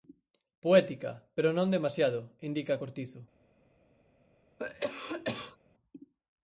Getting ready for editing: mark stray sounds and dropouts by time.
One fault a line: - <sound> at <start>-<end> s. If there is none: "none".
- cough at 4.6-5.6 s